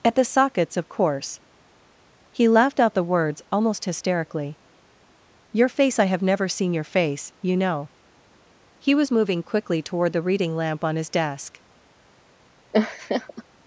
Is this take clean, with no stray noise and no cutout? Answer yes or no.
no